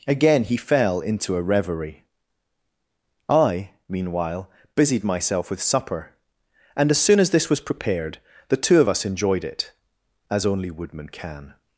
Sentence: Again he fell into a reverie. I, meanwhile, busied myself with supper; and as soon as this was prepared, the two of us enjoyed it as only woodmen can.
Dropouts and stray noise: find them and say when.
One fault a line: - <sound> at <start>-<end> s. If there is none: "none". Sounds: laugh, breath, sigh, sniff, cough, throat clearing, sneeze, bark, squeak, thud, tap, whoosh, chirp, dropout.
none